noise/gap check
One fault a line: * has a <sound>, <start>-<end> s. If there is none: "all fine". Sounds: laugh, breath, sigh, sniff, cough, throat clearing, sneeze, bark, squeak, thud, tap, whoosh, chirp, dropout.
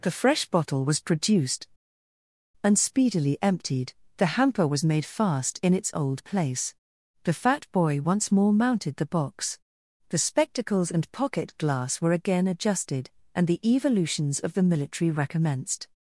all fine